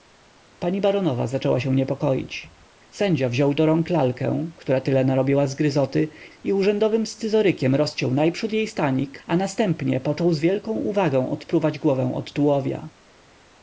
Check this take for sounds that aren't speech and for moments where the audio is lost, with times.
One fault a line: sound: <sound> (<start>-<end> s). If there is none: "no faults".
no faults